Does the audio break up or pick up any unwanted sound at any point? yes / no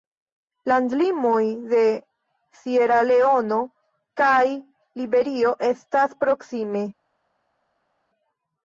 no